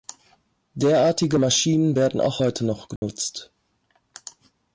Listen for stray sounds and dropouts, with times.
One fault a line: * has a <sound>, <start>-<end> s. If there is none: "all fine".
* has a dropout, 3.0-3.0 s